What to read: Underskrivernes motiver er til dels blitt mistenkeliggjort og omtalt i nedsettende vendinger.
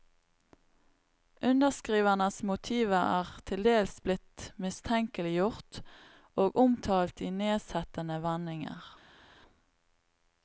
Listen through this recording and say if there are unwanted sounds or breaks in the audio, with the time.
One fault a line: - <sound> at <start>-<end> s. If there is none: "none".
none